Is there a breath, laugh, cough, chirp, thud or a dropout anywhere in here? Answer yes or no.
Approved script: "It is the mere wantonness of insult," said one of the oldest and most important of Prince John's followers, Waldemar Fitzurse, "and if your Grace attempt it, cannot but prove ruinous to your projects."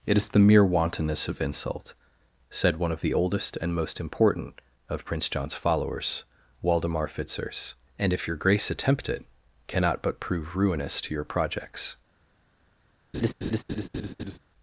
yes